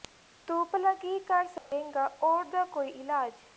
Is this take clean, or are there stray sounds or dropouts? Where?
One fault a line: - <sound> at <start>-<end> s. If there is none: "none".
- dropout at 1.6-1.7 s